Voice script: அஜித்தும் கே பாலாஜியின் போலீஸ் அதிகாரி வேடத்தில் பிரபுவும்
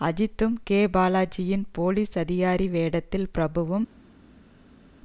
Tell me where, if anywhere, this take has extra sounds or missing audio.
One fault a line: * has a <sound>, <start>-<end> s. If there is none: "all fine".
all fine